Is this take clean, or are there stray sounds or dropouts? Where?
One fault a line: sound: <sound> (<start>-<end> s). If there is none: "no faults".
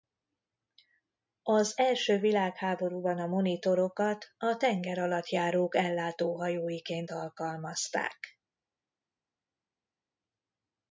no faults